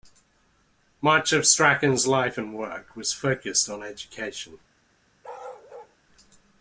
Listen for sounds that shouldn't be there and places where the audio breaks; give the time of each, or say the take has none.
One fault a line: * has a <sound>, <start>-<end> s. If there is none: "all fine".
* has a bark, 5.2-6.0 s